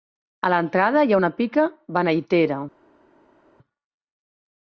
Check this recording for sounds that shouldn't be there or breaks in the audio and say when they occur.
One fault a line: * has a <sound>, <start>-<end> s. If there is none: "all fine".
all fine